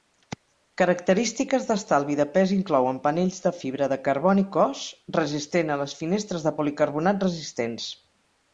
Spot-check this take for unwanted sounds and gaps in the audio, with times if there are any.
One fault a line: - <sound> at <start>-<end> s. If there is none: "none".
none